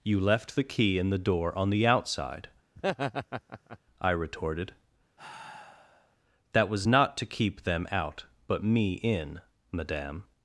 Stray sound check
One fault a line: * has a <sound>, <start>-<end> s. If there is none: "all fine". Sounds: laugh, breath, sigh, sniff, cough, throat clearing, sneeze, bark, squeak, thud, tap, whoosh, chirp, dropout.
* has a laugh, 2.8-3.8 s
* has a sigh, 5.2-6.2 s